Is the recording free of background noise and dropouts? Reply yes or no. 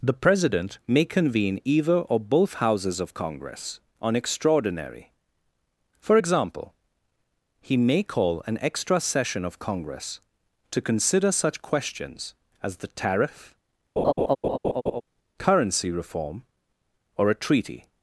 no